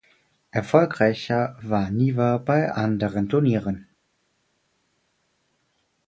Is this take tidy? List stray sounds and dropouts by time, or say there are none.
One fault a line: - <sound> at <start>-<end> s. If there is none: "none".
none